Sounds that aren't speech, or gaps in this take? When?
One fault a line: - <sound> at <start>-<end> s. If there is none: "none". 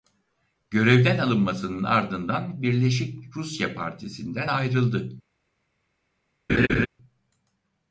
- laugh at 6.5-6.9 s